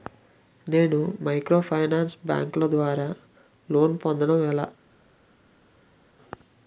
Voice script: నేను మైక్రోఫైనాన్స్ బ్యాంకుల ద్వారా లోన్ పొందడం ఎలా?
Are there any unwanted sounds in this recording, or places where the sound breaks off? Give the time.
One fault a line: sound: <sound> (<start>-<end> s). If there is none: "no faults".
no faults